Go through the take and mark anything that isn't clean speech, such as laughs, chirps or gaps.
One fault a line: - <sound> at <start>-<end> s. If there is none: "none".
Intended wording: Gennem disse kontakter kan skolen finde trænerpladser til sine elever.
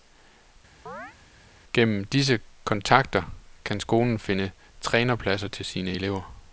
- chirp at 0.9-1.2 s